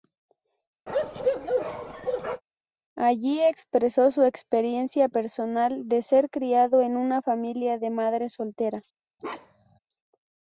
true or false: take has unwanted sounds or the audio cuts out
true